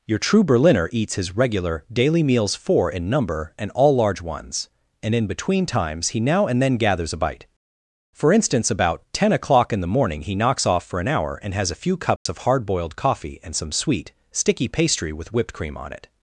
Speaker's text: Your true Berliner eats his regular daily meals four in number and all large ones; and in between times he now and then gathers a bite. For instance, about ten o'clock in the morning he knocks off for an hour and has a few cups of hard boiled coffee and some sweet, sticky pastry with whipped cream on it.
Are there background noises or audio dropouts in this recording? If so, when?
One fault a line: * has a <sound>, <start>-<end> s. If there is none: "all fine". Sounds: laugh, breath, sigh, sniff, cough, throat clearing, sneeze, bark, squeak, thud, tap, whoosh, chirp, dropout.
* has a dropout, 12.2-12.3 s